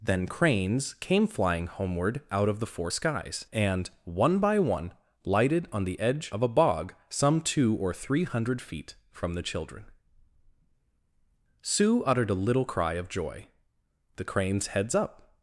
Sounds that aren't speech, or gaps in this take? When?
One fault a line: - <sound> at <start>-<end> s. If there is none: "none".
none